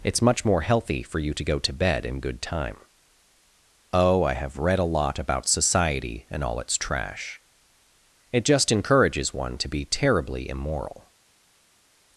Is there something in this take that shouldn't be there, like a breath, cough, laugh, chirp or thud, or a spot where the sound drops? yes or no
no